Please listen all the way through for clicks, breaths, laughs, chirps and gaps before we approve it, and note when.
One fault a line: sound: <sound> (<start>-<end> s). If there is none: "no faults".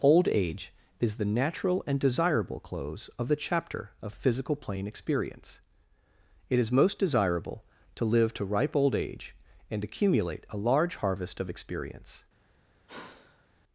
sound: sigh (12.9-13.5 s)